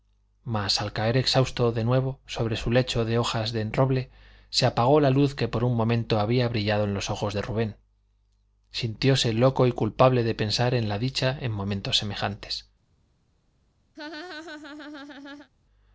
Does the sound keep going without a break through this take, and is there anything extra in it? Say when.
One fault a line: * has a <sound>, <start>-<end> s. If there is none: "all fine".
* has a laugh, 13.9-15.5 s